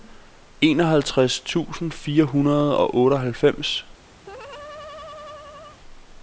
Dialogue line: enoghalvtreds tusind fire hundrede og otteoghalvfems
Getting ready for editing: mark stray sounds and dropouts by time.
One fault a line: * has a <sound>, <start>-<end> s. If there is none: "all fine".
* has a laugh, 4.2-5.8 s